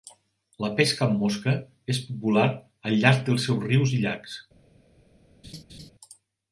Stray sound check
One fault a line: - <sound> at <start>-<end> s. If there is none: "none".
- laugh at 5.4-5.9 s